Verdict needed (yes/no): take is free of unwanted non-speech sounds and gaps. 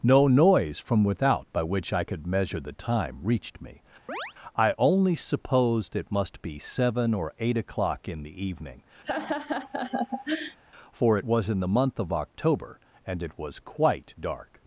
no